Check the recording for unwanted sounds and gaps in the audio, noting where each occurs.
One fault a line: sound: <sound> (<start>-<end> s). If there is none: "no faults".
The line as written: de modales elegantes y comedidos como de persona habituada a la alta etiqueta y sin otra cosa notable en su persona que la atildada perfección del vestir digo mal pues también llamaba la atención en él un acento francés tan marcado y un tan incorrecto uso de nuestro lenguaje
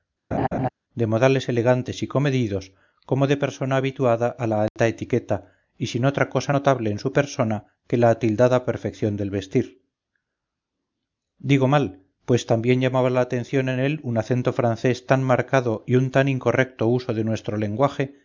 sound: laugh (0.3-0.7 s)
sound: dropout (4.7-4.8 s)